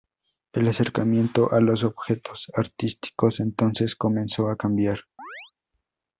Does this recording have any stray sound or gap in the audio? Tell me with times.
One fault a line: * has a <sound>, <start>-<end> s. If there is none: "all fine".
* has a chirp, 5.2-5.5 s